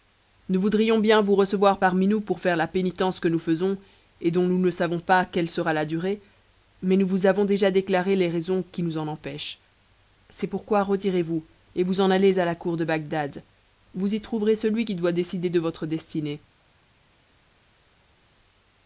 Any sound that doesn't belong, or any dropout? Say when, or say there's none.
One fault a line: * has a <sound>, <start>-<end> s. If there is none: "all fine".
all fine